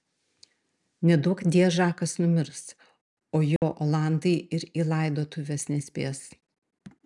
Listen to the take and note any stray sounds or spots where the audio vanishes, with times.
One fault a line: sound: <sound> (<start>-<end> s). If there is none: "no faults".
sound: dropout (3.6-3.6 s)